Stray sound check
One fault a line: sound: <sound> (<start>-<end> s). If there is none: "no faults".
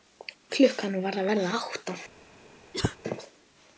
sound: cough (2.7-3.0 s)